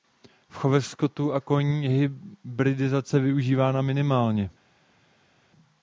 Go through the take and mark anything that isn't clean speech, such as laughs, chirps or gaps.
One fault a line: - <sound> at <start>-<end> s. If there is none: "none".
none